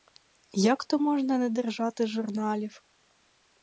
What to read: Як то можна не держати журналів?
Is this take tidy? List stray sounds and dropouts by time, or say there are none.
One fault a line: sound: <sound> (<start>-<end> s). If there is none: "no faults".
no faults